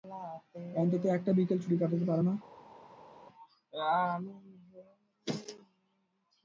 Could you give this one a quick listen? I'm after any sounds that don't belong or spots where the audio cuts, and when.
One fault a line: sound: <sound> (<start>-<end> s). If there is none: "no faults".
no faults